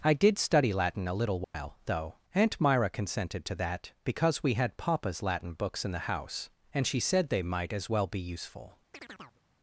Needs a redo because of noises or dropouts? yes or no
yes